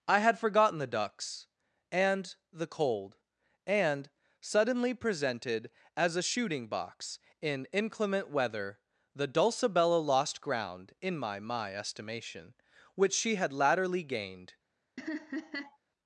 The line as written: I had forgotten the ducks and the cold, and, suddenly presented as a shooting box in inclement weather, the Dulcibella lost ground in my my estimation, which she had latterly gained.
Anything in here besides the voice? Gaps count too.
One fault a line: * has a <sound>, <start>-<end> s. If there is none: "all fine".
* has a laugh, 15.0-15.8 s